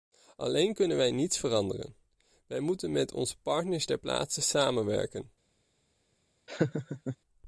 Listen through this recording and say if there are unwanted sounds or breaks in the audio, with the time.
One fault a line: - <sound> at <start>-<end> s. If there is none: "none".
- laugh at 6.5-7.2 s